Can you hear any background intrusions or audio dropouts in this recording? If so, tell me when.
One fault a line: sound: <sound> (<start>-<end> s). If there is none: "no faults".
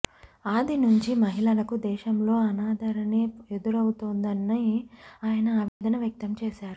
sound: dropout (5.7-5.8 s)